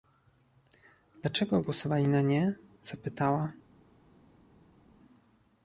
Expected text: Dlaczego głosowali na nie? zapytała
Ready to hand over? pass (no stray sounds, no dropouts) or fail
pass